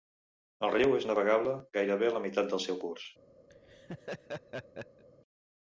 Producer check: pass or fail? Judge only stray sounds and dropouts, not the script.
fail